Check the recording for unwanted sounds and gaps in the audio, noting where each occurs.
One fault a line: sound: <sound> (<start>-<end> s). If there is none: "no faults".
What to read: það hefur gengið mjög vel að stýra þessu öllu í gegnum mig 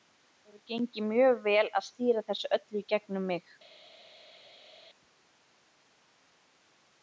no faults